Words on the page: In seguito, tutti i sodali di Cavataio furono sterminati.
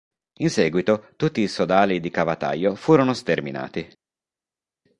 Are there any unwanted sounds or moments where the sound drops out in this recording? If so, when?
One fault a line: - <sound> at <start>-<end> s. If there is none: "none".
none